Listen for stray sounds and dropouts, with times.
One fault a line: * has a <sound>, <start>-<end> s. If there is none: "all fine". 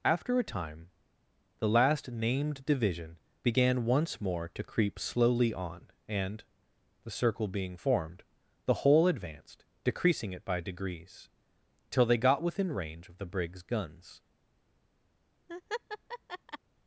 * has a laugh, 15.5-16.6 s